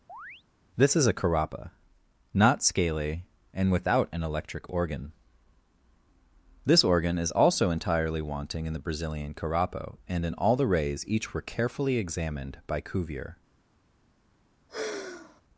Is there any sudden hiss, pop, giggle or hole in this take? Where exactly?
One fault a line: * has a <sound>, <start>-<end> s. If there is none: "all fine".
* has a chirp, 0.1-0.4 s
* has a sigh, 14.7-15.4 s